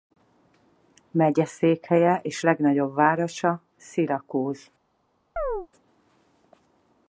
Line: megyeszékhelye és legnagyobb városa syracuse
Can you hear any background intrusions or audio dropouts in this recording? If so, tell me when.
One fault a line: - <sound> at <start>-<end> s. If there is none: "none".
- chirp at 5.4-5.7 s